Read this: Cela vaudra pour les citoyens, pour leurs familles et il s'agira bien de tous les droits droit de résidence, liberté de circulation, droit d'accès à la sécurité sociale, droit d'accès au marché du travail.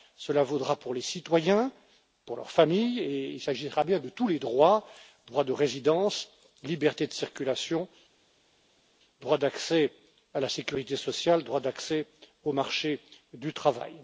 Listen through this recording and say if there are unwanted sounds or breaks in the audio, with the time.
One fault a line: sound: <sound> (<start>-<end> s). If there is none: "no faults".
no faults